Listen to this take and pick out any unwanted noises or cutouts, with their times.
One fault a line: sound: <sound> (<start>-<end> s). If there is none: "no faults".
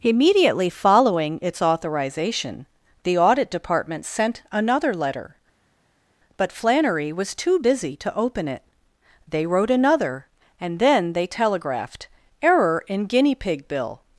no faults